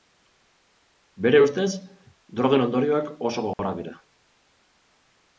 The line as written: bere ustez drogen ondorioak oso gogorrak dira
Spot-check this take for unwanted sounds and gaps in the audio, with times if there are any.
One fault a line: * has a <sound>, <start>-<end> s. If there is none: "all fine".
* has a dropout, 3.5-3.6 s